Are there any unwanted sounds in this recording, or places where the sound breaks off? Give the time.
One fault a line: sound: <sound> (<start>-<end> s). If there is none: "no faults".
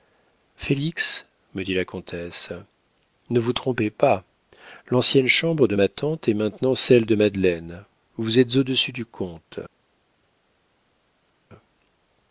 no faults